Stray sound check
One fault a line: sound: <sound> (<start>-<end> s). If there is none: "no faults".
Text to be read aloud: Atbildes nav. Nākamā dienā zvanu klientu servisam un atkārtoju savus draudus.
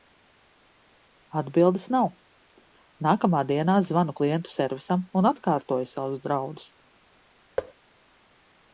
sound: thud (7.6-7.7 s)